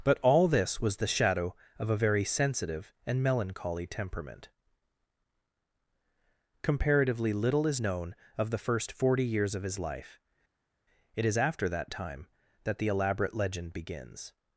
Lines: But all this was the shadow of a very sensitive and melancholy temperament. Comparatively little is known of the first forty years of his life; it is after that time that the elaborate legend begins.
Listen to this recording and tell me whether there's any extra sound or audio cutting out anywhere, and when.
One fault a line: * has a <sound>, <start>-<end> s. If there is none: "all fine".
all fine